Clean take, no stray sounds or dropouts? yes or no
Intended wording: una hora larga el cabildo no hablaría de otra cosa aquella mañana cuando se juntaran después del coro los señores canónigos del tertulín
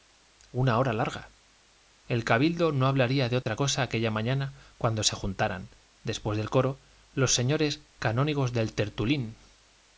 no